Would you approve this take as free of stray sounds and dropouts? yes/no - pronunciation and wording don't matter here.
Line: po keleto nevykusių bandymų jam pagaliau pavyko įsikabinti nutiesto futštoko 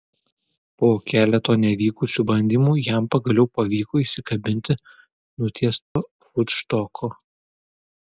no